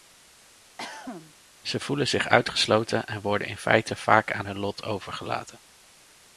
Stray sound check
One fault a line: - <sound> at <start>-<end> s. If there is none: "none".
- cough at 0.8-1.3 s